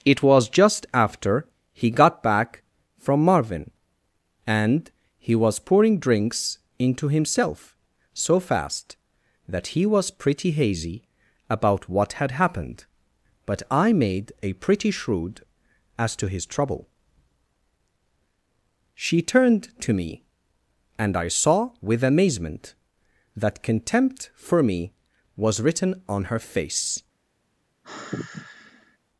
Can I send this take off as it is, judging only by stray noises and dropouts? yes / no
no